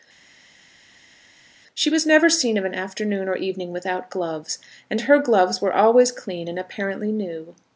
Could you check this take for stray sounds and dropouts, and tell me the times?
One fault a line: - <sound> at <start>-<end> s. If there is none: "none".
none